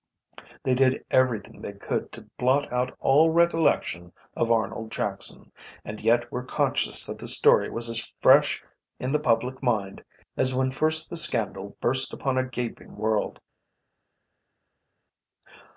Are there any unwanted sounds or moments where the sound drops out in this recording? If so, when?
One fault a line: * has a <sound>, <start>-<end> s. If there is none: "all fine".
all fine